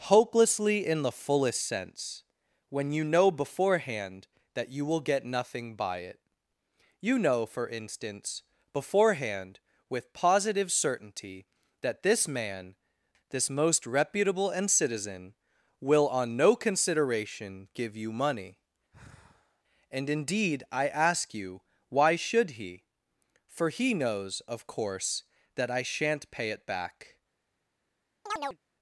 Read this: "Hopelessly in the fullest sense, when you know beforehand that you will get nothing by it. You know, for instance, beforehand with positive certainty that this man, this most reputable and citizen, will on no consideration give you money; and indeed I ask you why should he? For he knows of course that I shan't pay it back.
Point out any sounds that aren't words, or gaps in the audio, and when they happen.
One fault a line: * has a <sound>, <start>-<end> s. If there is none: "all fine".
* has a sigh, 18.9-19.6 s
* has a chirp, 28.3-28.6 s